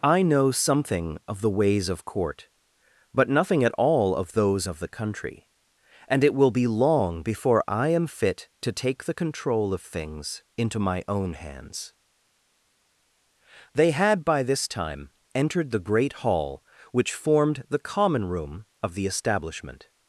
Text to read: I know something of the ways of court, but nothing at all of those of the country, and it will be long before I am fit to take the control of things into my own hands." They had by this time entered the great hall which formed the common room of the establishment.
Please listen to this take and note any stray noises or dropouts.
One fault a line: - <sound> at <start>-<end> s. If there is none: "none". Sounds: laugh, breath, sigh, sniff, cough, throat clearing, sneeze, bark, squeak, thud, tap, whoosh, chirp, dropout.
none